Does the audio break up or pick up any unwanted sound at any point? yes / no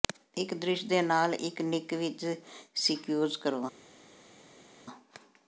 no